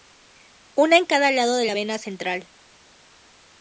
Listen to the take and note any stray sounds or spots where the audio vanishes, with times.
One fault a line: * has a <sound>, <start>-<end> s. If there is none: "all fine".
all fine